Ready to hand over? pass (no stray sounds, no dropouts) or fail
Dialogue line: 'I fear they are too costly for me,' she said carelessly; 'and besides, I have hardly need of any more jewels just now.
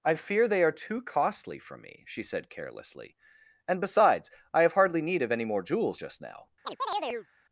fail